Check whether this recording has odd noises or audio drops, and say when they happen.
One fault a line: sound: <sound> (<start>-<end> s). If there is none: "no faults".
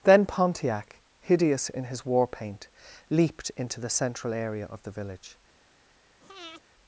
sound: breath (6.2-6.6 s)